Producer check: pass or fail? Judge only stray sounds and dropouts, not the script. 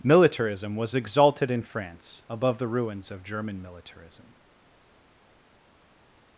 pass